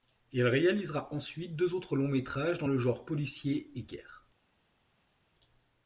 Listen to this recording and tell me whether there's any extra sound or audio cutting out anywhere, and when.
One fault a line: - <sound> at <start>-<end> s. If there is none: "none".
none